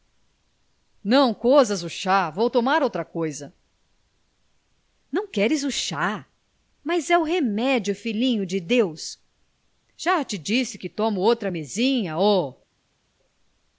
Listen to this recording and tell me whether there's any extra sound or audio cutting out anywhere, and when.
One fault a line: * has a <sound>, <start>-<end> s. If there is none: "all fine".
all fine